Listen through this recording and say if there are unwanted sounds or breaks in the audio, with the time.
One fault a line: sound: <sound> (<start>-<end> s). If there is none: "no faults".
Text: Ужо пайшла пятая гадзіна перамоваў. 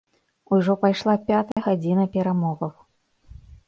sound: dropout (1.5-1.6 s)